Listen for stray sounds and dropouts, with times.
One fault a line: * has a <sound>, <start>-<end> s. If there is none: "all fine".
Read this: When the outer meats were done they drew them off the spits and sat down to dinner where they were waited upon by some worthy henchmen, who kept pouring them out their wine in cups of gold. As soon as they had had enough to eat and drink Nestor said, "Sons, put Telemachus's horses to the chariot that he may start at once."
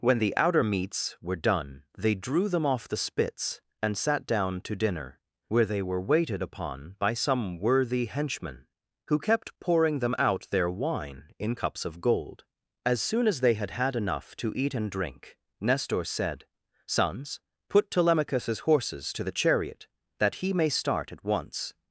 all fine